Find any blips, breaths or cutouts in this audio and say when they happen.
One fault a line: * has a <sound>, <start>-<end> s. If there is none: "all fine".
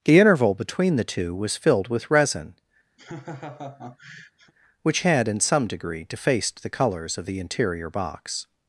* has a laugh, 3.0-4.5 s